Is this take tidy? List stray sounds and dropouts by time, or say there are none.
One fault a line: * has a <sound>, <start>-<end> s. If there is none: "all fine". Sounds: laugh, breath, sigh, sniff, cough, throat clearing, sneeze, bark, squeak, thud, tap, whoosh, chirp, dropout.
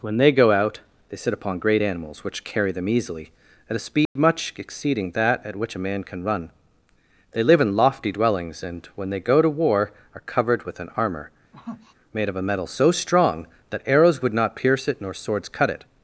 * has a dropout, 4.1-4.2 s
* has a sniff, 11.5-11.9 s